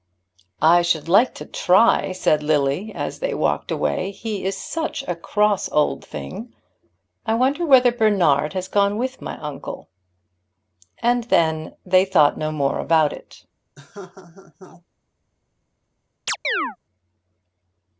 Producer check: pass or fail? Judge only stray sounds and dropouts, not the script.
fail